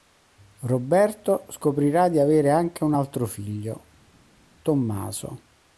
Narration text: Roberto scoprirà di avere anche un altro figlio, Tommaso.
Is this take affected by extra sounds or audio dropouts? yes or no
no